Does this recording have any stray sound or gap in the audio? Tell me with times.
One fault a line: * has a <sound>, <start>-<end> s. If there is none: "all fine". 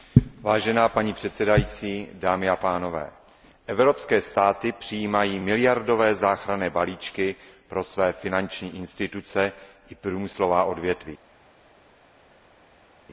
all fine